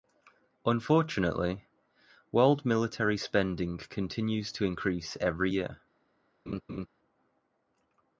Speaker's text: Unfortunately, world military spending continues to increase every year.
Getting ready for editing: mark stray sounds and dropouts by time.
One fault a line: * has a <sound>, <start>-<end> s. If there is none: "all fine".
* has a laugh, 6.5-6.9 s